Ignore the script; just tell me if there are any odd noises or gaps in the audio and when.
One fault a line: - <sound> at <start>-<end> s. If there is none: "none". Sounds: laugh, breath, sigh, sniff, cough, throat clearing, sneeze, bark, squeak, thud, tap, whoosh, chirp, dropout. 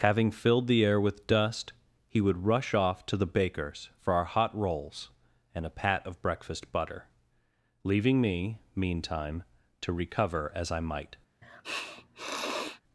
- sniff at 11.4-12.8 s